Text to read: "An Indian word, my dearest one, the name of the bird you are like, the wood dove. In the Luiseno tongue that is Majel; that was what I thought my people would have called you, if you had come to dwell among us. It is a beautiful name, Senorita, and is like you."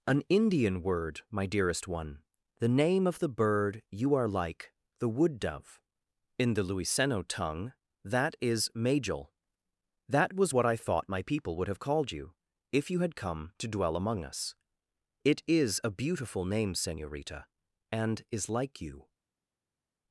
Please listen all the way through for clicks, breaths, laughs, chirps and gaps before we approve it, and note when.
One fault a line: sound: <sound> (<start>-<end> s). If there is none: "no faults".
no faults